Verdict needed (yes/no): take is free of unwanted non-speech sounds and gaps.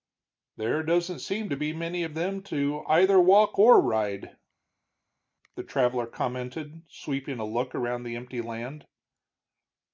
yes